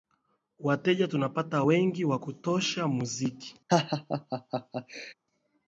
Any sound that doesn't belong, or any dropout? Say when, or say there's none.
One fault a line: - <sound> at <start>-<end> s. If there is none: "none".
- laugh at 3.7-5.1 s